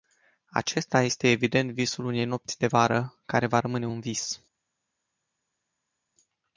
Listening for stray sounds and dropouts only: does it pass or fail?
pass